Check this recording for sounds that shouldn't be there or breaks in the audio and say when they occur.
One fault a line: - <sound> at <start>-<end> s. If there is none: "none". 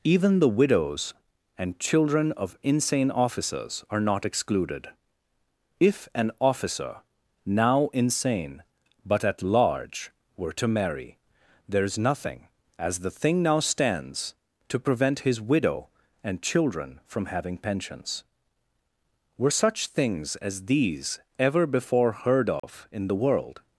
- dropout at 22.6-22.6 s